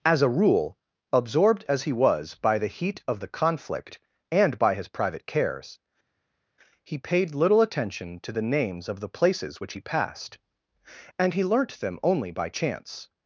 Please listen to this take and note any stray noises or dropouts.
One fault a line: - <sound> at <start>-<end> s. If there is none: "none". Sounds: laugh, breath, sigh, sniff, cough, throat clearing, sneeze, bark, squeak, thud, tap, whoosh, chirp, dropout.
none